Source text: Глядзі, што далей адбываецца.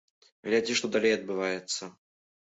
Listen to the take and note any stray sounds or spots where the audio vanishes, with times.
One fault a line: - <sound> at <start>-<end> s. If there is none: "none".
none